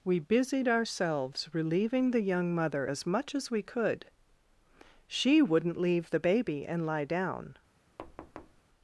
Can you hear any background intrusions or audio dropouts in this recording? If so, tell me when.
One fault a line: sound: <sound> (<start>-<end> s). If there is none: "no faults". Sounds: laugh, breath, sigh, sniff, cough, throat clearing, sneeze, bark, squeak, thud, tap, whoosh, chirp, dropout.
sound: thud (8.0-8.6 s)